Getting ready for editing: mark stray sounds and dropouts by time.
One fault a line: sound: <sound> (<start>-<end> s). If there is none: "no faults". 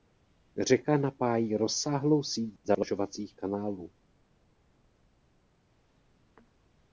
no faults